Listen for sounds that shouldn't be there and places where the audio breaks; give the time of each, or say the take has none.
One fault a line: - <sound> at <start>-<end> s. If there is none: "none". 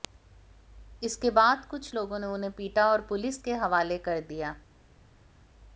none